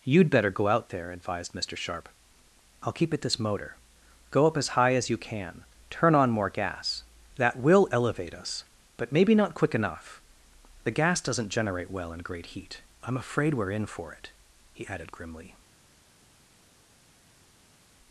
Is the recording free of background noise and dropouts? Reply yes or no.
yes